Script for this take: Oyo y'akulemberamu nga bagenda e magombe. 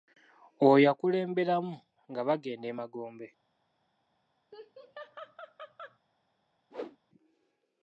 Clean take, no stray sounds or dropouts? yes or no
no